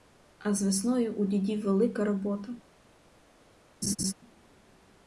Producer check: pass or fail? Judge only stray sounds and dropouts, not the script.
fail